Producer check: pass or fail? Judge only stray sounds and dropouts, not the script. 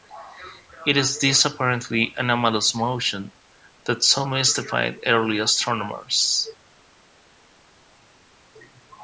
pass